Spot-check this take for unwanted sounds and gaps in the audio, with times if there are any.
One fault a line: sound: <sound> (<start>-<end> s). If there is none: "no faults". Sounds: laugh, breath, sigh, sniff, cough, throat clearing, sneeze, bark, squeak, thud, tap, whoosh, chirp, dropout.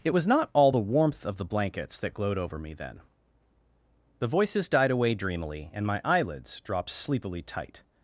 no faults